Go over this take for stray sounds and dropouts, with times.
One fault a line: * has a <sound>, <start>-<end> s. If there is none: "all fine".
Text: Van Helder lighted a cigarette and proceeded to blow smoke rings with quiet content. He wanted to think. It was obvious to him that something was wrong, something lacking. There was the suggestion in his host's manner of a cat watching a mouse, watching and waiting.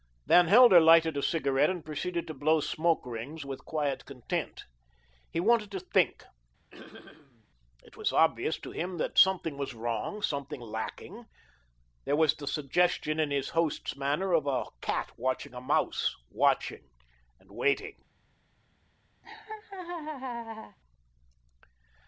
* has a throat clearing, 6.7-7.5 s
* has a laugh, 19.2-20.8 s